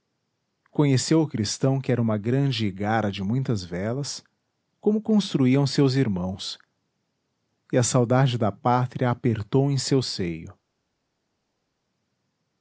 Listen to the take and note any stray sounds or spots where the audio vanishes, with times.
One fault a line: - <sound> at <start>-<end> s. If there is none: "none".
none